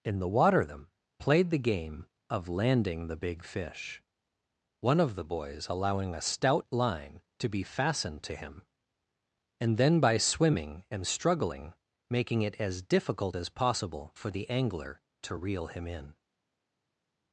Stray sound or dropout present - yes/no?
no